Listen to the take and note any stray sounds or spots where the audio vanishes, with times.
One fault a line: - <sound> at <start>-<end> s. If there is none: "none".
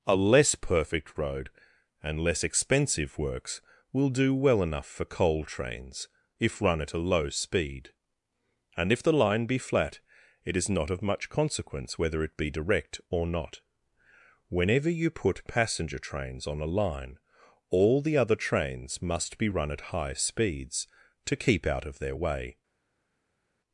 none